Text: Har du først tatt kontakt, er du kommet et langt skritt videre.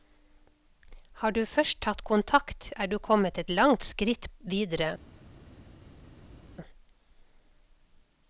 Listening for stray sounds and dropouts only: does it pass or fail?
pass